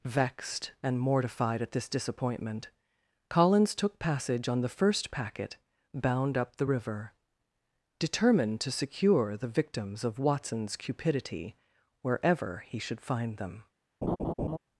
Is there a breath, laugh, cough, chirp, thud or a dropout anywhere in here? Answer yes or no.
yes